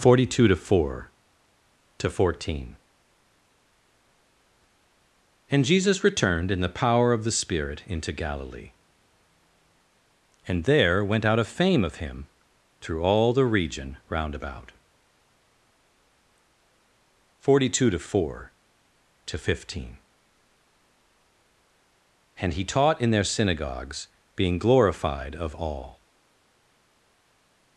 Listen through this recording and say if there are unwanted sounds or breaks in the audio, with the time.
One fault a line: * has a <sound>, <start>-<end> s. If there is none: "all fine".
all fine